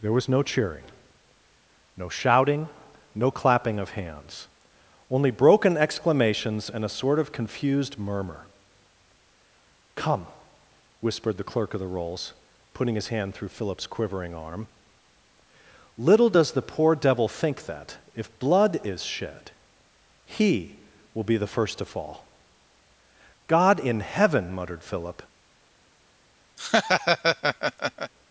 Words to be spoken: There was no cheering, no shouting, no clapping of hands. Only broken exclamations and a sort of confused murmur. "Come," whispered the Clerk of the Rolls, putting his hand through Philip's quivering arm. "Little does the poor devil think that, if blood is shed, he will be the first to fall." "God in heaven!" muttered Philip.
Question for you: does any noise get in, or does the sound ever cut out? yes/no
yes